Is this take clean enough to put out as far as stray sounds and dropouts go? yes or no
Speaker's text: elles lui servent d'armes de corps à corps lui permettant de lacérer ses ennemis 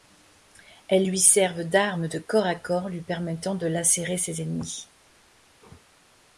yes